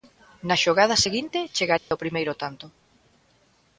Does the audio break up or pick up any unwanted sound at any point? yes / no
yes